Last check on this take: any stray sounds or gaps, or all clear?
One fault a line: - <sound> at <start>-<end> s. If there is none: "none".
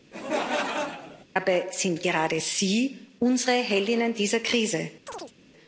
- laugh at 0.1-1.3 s
- chirp at 5.1-5.3 s